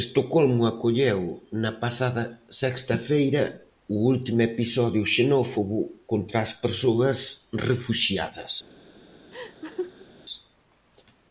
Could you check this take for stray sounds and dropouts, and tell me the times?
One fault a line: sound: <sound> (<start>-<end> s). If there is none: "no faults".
sound: laugh (9.3-10.1 s)